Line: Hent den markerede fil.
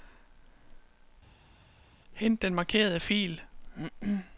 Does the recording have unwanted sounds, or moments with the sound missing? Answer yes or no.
no